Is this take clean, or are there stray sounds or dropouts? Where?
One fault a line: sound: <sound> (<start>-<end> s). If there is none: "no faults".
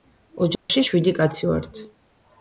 sound: dropout (0.6-0.7 s)